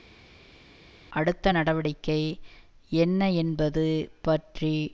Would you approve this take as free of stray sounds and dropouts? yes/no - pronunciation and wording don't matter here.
yes